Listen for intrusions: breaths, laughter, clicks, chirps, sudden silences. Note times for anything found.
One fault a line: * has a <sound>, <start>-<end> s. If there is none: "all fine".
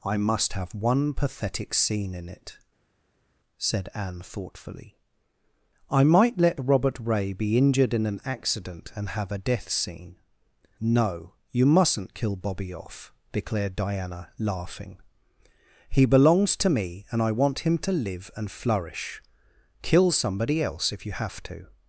all fine